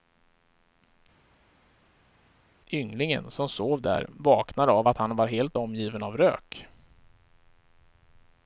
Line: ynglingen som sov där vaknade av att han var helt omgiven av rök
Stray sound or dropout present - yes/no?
no